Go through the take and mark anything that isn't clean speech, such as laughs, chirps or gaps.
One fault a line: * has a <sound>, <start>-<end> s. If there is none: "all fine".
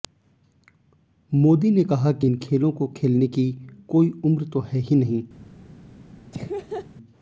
* has a laugh, 6.3-6.9 s